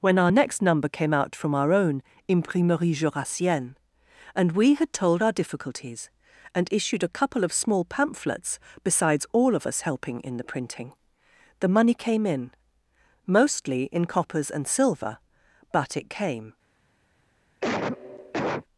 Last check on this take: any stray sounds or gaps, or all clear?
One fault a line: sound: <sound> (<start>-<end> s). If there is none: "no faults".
sound: cough (17.6-18.6 s)